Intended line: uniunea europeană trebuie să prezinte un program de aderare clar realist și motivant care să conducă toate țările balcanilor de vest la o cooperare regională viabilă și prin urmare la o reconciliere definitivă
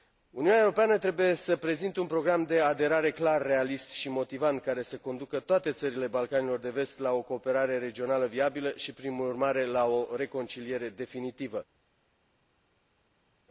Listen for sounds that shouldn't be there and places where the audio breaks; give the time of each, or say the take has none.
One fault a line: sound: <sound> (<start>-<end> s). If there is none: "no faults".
no faults